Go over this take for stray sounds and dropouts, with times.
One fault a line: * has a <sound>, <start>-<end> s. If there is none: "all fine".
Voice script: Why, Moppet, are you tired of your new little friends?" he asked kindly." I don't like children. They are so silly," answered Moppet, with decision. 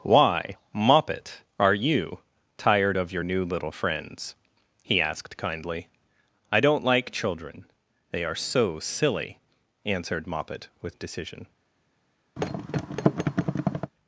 * has a thud, 12.4-13.9 s